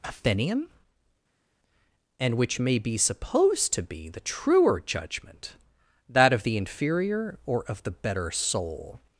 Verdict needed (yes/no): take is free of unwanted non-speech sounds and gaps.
yes